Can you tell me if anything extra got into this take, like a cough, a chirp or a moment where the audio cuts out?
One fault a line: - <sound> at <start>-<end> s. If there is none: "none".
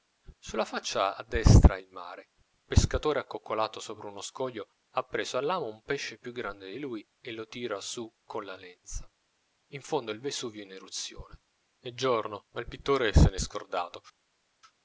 none